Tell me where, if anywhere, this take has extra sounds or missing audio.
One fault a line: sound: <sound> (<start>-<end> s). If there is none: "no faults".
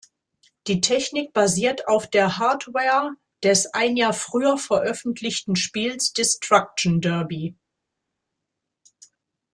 no faults